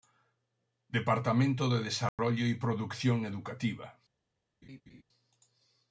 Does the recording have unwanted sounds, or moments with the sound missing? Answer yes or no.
yes